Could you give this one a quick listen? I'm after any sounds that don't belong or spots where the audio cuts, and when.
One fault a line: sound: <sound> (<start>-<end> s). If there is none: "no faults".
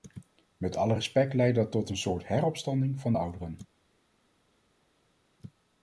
no faults